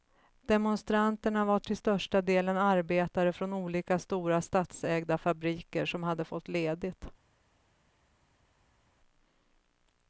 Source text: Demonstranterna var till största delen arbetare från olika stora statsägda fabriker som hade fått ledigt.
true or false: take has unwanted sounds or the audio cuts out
false